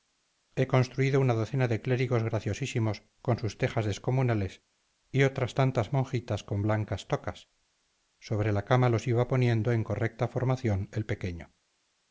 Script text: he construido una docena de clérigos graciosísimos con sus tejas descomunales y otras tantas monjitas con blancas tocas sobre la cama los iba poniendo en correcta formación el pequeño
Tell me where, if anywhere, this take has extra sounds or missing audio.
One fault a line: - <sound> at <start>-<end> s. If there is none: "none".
none